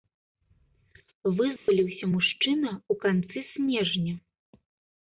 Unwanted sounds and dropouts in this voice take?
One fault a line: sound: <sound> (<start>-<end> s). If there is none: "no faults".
sound: dropout (1.6-1.7 s)